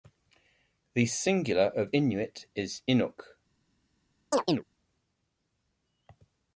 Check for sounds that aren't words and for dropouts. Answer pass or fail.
fail